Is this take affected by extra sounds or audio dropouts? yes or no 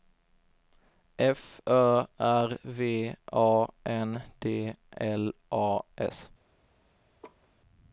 yes